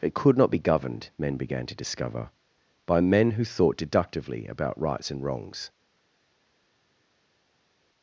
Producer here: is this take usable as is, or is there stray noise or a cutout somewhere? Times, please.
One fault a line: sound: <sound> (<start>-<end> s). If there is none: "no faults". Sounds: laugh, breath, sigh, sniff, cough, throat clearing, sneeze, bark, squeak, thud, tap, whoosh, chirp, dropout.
no faults